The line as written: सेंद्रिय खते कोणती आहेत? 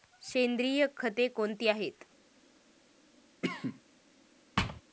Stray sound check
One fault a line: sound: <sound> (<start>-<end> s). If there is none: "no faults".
sound: cough (3.4-3.8 s)
sound: thud (4.6-4.8 s)